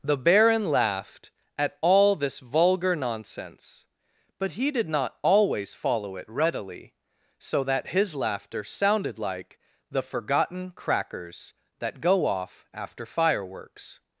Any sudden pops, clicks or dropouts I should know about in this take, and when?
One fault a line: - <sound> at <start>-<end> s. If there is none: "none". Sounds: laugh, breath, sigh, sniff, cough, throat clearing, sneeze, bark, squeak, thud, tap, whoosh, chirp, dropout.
none